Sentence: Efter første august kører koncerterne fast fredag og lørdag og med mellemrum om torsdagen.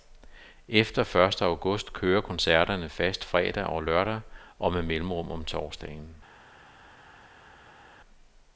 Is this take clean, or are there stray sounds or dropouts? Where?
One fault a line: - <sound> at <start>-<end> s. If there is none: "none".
none